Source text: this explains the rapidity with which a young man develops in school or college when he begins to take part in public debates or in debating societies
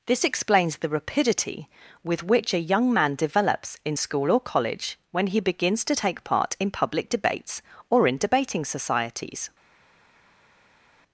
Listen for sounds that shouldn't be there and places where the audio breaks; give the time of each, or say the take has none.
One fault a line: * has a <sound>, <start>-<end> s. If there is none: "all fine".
all fine